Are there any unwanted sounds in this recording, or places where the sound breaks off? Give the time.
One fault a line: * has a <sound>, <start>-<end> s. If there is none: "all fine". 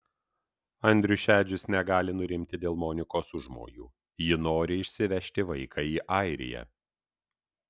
all fine